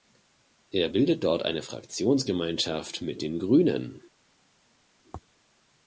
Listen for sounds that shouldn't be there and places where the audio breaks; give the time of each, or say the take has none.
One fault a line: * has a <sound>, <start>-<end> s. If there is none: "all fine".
all fine